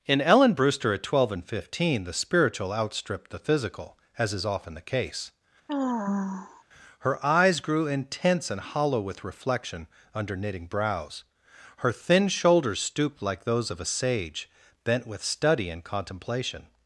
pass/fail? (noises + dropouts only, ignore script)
fail